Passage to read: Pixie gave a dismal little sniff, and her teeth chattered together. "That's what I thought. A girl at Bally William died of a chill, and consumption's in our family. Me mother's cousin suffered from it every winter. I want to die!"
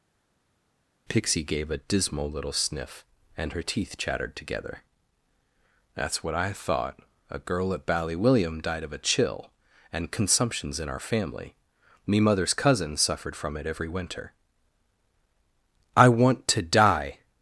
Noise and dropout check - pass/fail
pass